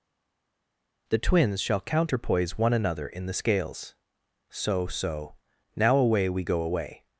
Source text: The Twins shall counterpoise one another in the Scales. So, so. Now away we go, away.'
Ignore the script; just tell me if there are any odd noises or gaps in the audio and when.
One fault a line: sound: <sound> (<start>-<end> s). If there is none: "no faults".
no faults